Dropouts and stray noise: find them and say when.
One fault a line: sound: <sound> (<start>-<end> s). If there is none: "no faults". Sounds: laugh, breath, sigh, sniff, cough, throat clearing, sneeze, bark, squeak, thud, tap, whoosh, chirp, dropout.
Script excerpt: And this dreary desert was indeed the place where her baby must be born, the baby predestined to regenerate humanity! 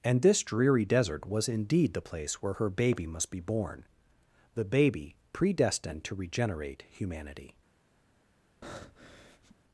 sound: breath (8.6-9.6 s)